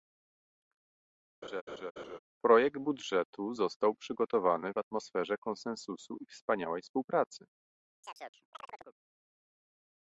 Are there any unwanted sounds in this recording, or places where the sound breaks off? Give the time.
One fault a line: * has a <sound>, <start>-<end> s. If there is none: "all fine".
* has a laugh, 1.4-2.2 s
* has a chirp, 8.0-9.0 s